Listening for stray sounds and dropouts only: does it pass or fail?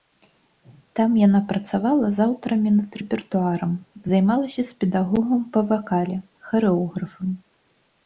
pass